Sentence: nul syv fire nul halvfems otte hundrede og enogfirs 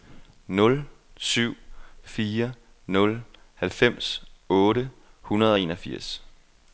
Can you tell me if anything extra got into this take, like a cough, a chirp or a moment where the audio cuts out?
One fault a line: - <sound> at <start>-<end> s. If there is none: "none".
none